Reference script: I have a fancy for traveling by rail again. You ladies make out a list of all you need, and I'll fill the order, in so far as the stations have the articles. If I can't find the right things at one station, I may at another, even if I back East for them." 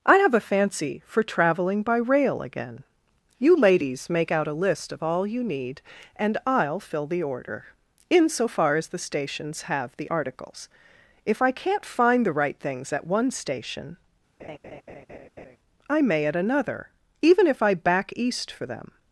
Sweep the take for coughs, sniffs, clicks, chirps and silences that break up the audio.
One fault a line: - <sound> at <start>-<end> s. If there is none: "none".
- laugh at 14.4-15.6 s